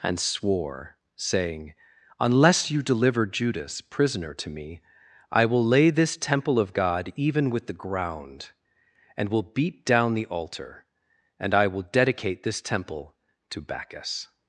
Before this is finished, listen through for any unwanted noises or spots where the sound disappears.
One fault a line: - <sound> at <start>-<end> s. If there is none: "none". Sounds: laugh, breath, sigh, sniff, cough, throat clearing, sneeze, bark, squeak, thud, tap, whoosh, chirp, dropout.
none